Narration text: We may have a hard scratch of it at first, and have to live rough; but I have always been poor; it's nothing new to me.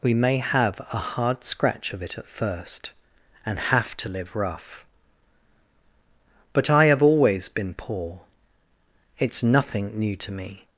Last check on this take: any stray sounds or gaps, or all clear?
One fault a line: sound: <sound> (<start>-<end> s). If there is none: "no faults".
no faults